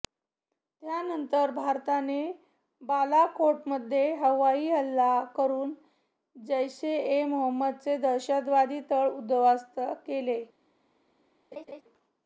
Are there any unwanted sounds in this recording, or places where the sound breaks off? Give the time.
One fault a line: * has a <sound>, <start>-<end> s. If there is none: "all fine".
* has a laugh, 11.5-11.8 s